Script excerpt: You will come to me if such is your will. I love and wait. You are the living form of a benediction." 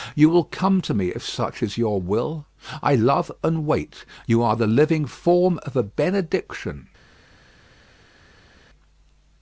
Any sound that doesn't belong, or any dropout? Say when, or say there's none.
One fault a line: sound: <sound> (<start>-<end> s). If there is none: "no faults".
no faults